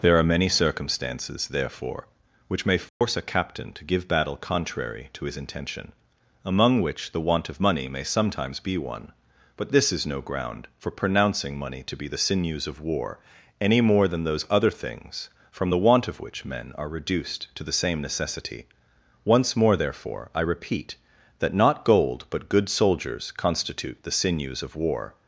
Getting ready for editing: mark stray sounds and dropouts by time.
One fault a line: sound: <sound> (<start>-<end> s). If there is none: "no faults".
sound: dropout (2.9-3.0 s)